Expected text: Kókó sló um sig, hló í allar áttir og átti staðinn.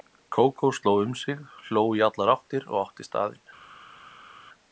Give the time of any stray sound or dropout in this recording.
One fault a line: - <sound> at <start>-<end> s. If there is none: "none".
none